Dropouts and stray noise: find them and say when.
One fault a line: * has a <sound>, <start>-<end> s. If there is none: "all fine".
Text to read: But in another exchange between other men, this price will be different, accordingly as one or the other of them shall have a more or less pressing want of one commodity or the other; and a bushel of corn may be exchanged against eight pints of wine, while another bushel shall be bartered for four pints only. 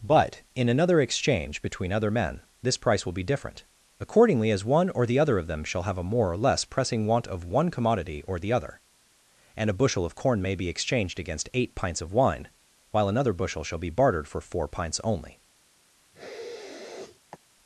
* has a sniff, 16.1-17.4 s